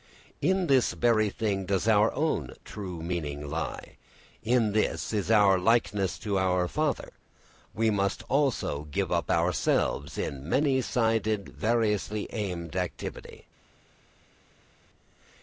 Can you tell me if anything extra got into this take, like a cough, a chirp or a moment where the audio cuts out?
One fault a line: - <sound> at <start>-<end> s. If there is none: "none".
none